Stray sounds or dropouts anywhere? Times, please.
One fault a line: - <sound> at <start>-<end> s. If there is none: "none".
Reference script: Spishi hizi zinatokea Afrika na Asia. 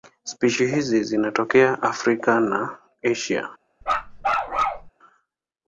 - bark at 3.8-4.9 s